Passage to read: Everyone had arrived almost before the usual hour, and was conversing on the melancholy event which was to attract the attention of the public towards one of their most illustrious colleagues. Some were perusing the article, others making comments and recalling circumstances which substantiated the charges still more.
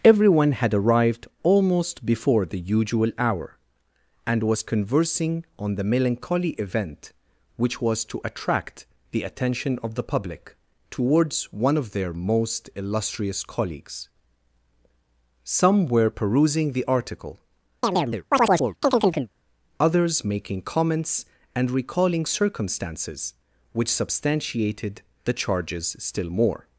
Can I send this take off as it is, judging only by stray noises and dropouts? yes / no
no